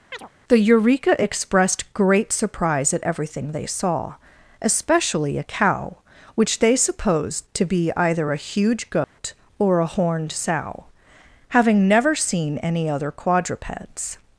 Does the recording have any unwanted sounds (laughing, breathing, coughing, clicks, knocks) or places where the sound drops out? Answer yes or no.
yes